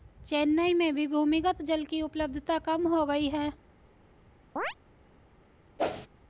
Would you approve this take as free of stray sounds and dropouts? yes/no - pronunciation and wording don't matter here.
no